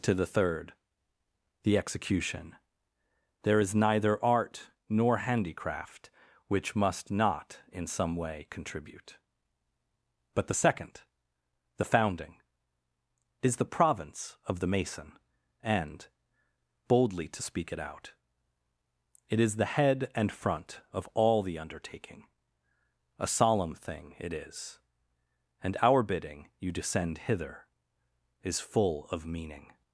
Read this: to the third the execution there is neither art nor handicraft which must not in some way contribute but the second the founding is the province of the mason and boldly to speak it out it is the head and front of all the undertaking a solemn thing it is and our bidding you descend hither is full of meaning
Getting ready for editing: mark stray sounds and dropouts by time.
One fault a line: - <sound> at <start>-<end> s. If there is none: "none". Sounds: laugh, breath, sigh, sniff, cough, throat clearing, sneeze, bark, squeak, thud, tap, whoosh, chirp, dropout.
none